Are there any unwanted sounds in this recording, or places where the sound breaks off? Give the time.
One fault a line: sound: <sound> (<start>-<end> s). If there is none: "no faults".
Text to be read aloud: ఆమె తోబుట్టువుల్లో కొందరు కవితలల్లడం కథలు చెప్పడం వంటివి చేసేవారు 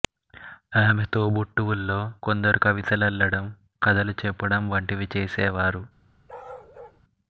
sound: bark (6.3-7.0 s)